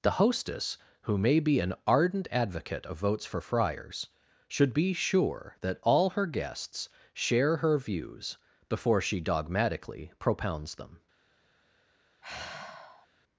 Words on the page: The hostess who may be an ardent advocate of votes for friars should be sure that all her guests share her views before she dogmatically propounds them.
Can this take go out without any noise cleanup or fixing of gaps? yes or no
no